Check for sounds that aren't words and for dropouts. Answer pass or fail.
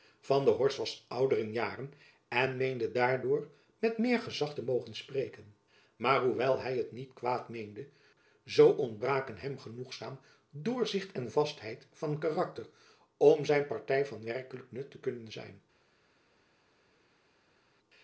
pass